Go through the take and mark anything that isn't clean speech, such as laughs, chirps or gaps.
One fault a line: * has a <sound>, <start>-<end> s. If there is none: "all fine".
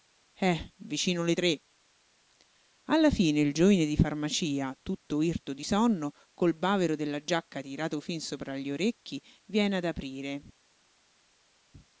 all fine